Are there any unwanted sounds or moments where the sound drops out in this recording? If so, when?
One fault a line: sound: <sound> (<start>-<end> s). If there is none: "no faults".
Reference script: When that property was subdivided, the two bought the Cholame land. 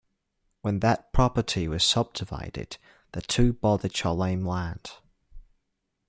no faults